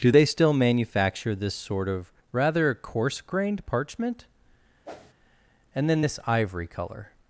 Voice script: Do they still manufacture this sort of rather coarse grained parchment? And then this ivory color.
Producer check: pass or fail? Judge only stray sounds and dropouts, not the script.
fail